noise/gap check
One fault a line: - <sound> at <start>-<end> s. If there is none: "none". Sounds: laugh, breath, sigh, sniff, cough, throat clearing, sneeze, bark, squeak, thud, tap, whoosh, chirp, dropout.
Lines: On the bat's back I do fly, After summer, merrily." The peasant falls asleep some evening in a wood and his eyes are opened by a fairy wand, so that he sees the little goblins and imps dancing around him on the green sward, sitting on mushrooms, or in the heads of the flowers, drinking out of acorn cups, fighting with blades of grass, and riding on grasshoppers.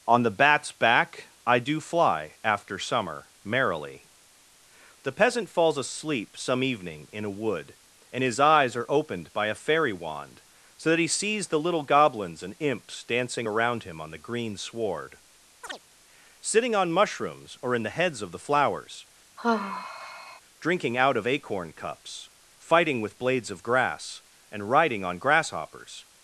- chirp at 15.6-15.8 s
- sigh at 19.4-20.4 s